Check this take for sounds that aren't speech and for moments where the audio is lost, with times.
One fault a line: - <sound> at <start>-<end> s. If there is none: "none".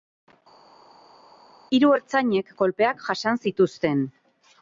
none